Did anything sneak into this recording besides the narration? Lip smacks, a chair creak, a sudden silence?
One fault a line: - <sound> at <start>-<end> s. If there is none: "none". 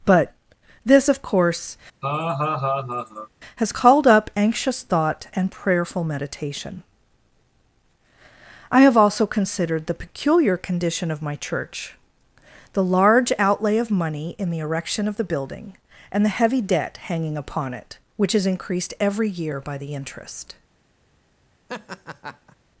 - laugh at 2.0-3.3 s
- laugh at 21.7-22.6 s